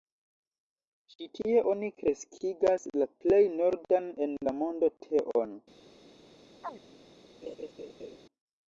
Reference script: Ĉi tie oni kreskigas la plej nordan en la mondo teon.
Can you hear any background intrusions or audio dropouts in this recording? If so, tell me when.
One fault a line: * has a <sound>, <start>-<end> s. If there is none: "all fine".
* has a chirp, 6.6-6.8 s
* has a laugh, 7.4-8.2 s